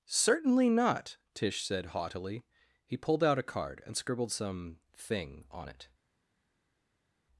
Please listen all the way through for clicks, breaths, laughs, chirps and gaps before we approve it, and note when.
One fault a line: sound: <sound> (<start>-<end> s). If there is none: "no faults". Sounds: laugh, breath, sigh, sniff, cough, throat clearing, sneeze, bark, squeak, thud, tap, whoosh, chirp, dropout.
no faults